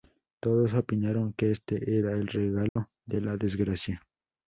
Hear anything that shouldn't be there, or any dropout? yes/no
yes